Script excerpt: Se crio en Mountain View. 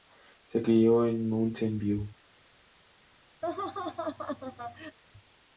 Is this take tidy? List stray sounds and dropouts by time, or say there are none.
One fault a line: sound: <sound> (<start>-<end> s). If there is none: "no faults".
sound: laugh (3.4-5.0 s)